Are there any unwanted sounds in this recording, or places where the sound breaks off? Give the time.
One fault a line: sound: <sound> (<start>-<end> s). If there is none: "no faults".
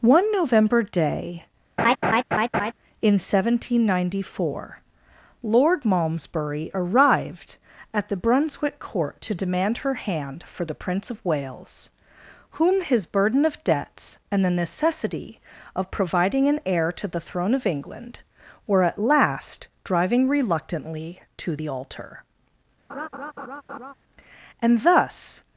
sound: laugh (1.8-2.7 s)
sound: laugh (22.9-23.9 s)